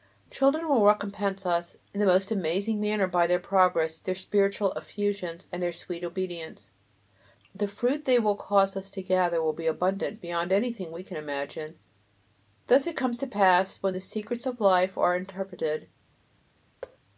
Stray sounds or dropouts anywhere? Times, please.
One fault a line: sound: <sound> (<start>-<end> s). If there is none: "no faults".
sound: thud (16.8-17.0 s)